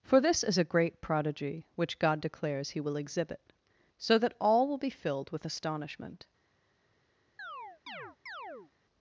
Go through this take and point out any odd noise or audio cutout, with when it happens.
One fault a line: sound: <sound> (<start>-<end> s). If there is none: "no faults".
sound: chirp (7.4-8.7 s)